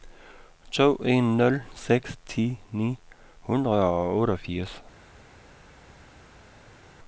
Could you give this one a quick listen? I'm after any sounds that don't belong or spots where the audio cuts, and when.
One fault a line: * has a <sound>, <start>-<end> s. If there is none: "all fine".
all fine